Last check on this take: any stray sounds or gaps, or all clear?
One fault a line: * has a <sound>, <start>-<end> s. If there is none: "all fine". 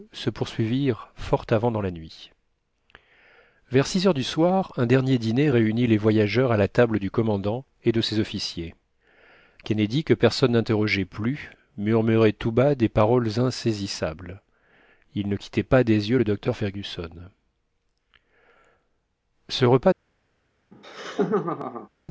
* has a laugh, 20.7-21.9 s